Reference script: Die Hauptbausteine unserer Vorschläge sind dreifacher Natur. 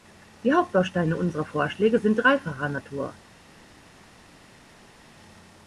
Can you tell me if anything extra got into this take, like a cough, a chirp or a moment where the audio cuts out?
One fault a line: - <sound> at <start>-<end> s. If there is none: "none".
none